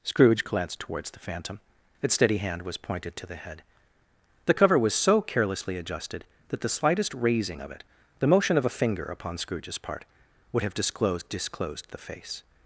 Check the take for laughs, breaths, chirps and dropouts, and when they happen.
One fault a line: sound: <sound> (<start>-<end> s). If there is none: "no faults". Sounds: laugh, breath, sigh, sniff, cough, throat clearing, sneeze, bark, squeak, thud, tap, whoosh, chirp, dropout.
no faults